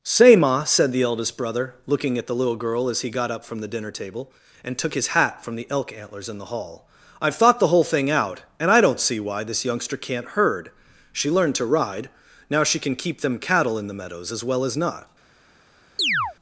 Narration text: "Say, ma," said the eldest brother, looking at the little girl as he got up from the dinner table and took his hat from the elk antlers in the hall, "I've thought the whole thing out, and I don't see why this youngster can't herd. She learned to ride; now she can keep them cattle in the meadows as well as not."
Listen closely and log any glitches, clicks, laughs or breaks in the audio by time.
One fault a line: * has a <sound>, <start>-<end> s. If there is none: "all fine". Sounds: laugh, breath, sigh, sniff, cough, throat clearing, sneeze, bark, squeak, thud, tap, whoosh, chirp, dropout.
* has a chirp, 16.0-16.4 s